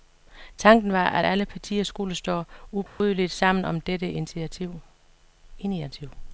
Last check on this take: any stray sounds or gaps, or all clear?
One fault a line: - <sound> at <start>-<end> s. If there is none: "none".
- dropout at 2.9-3.0 s